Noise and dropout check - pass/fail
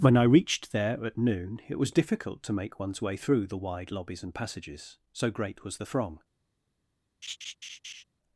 fail